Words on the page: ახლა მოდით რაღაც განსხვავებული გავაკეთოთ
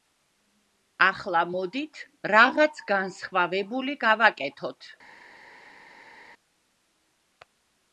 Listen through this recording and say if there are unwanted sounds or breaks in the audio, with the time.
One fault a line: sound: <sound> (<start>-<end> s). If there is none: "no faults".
no faults